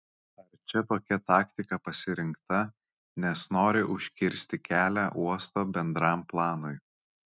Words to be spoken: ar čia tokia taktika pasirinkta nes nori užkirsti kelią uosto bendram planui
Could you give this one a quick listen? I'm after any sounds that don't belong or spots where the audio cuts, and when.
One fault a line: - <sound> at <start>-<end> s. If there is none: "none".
none